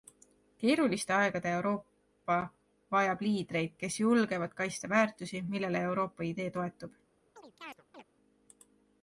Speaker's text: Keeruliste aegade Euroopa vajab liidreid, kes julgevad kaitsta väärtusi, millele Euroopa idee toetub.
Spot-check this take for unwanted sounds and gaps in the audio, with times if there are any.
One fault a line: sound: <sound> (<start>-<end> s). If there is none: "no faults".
sound: chirp (7.4-8.0 s)